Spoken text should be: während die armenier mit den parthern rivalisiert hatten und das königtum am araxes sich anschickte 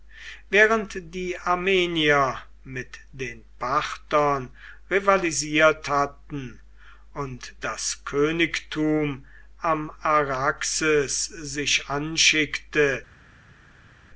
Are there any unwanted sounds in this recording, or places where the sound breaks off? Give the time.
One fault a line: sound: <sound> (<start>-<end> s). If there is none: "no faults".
no faults